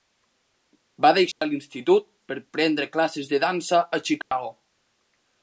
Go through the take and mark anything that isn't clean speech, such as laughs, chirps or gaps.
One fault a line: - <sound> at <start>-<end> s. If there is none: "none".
- dropout at 1.3-1.4 s
- dropout at 4.2-4.3 s